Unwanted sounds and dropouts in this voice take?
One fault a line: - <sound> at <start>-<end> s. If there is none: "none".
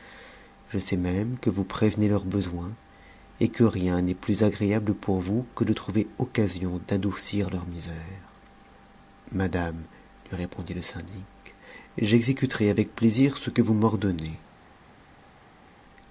none